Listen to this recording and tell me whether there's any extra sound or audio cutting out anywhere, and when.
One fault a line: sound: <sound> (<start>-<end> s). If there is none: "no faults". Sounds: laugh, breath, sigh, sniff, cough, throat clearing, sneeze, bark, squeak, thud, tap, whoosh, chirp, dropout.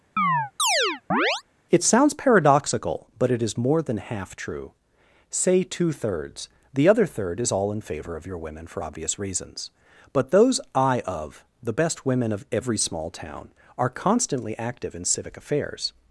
sound: chirp (0.2-1.4 s)